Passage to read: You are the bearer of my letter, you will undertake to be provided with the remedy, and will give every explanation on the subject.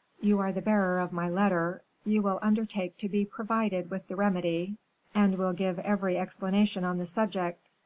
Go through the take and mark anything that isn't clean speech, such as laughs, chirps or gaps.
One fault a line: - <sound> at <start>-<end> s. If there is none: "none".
none